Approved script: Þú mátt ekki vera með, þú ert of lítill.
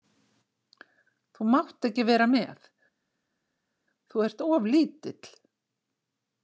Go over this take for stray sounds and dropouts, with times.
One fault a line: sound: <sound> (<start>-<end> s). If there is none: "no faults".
no faults